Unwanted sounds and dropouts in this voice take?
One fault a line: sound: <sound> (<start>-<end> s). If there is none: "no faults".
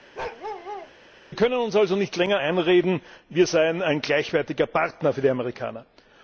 sound: bark (0.1-0.9 s)